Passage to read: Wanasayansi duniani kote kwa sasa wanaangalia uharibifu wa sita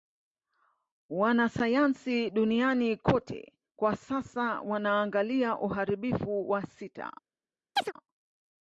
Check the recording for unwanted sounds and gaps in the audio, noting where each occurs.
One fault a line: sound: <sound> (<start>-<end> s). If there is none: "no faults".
sound: chirp (7.8-7.9 s)